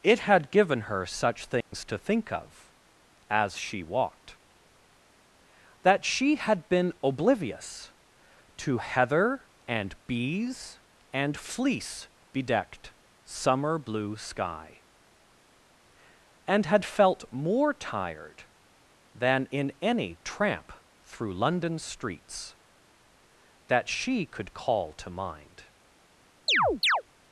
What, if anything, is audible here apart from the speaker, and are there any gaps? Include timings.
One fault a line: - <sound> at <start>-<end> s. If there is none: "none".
- dropout at 1.6-1.7 s
- chirp at 26.5-27.0 s